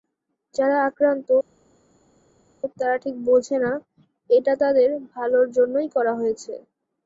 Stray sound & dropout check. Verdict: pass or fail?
pass